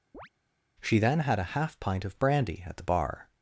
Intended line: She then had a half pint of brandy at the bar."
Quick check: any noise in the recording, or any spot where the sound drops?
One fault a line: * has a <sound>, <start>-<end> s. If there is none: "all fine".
* has a chirp, 0.1-0.3 s